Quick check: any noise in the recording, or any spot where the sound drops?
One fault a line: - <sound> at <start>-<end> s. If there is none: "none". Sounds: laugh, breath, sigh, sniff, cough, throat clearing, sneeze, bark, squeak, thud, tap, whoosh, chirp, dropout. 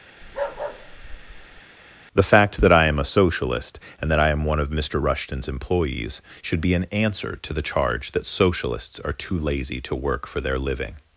- bark at 0.2-1.6 s